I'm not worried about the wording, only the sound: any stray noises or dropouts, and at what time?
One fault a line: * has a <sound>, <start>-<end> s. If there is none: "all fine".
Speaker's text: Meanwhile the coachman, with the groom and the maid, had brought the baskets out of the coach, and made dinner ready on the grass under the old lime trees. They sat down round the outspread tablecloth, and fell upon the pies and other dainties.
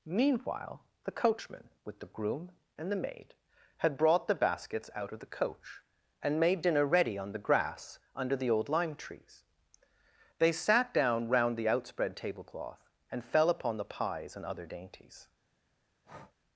* has a breath, 16.0-16.4 s